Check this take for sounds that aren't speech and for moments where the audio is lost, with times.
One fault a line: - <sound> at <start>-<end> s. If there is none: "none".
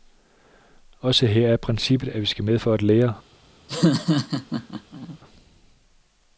- laugh at 3.7-5.2 s